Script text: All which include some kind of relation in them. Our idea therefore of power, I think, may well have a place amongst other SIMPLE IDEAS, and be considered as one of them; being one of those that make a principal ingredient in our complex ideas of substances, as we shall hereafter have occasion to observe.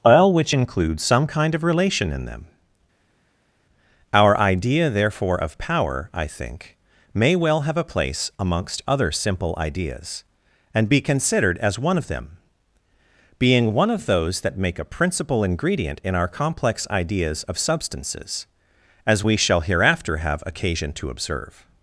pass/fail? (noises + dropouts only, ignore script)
pass